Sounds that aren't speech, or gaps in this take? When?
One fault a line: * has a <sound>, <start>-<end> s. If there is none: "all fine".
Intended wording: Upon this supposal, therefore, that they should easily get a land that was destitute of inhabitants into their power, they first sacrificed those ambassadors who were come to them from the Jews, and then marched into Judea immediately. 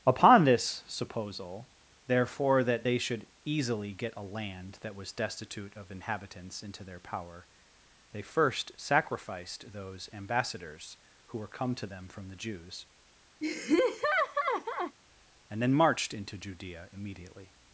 * has a laugh, 13.4-15.0 s